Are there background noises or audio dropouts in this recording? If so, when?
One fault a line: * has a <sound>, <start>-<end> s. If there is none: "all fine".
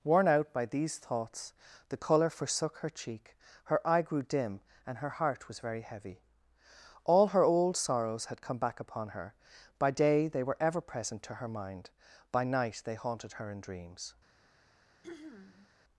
* has a throat clearing, 15.0-15.7 s